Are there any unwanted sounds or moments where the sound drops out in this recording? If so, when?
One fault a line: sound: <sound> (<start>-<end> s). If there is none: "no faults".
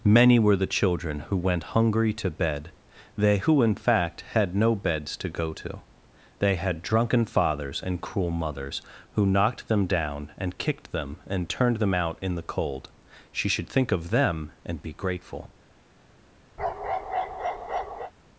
sound: bark (16.6-18.1 s)